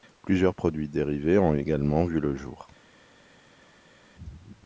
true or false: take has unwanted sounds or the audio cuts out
false